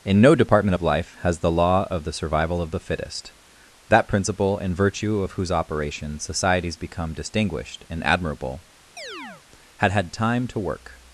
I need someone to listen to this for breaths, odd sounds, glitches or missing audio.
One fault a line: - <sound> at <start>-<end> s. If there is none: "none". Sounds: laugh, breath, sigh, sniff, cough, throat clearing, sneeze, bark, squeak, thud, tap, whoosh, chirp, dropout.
- chirp at 9.0-9.4 s